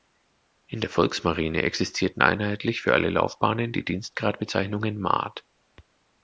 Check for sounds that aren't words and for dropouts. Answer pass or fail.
pass